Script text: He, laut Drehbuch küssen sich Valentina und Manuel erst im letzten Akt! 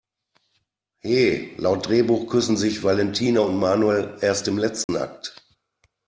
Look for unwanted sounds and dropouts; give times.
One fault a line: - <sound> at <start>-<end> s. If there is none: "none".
- dropout at 4.8-4.9 s